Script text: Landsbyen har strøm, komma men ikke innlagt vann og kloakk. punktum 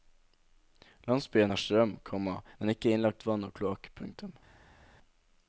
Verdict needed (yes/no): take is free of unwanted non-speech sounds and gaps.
yes